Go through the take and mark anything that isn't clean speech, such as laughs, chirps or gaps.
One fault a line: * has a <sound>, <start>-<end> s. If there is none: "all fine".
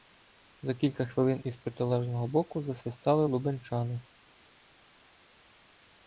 all fine